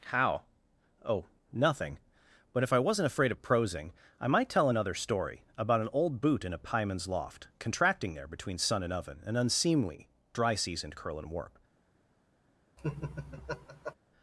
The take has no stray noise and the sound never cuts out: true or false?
false